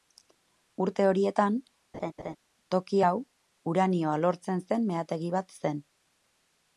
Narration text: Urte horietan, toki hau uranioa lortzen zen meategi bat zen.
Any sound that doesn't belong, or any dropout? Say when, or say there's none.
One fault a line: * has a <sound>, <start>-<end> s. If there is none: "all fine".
* has a laugh, 1.9-2.4 s